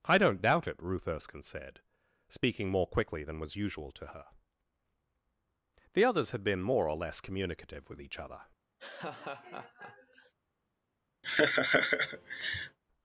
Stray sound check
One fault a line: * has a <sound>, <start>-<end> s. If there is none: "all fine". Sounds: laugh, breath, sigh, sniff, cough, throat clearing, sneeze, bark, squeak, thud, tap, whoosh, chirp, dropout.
* has a laugh, 8.8-10.3 s
* has a laugh, 11.2-12.8 s